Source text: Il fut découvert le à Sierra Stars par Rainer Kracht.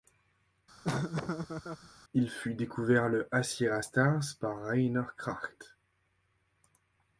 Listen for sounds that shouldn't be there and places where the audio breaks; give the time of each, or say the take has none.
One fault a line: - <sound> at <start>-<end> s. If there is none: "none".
- laugh at 0.8-1.9 s